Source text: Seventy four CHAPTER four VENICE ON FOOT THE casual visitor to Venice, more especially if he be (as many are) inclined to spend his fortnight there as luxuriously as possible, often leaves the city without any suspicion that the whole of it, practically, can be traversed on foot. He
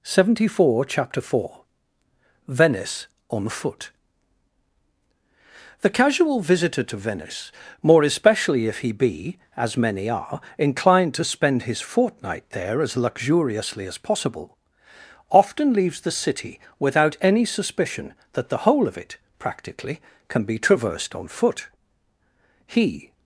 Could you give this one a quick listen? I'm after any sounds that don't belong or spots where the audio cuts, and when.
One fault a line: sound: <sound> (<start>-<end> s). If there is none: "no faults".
no faults